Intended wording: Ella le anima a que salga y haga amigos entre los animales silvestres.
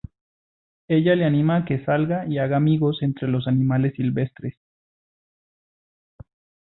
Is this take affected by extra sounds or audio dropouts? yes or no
no